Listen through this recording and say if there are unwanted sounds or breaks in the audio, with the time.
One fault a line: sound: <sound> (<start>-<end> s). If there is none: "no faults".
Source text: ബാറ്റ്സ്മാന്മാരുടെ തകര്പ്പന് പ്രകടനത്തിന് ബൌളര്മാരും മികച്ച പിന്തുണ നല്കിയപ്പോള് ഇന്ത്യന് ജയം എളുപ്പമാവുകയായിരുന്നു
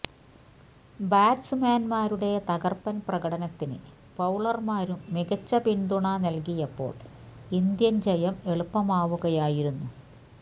no faults